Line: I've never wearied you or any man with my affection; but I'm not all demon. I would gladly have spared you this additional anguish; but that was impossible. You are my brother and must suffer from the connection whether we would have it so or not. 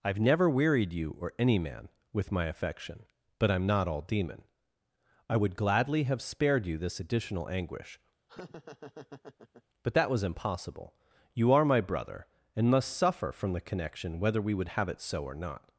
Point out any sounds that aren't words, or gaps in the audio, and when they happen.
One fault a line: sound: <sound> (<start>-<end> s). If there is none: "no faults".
sound: laugh (8.3-9.6 s)